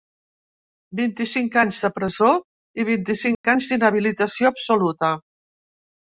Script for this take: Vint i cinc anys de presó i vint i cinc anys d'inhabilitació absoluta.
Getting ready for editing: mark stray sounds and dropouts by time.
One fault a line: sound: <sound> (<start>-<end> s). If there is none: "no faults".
sound: dropout (3.3-3.4 s)